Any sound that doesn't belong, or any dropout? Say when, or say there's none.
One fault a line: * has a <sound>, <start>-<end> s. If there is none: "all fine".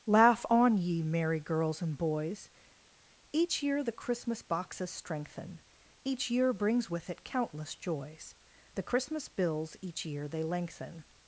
all fine